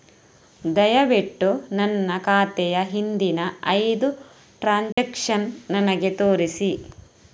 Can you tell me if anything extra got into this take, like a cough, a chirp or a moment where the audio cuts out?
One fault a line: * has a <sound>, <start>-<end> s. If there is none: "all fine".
* has a dropout, 4.9-5.0 s